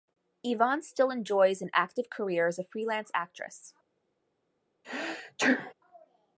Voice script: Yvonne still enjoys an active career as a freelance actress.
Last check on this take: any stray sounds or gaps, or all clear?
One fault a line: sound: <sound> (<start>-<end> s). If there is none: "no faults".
sound: sneeze (4.8-5.7 s)